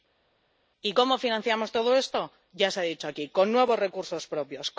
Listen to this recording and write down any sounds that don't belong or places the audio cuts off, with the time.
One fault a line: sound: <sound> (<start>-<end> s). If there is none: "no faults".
no faults